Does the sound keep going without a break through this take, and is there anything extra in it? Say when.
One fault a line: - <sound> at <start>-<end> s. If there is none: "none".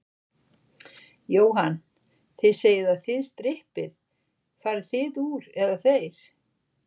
none